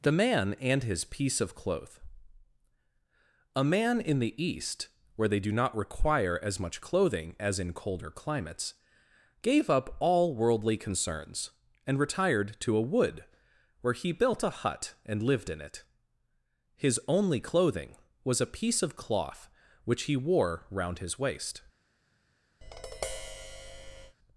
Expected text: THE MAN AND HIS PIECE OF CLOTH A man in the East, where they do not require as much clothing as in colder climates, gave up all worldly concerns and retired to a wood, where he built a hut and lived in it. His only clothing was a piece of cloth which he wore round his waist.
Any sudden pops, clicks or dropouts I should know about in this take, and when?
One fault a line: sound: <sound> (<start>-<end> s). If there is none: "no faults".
sound: tap (22.6-24.2 s)